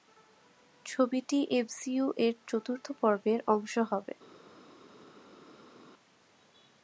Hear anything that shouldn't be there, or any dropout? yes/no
no